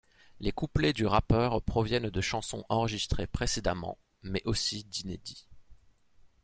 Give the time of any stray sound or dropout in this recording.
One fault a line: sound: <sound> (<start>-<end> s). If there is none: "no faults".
no faults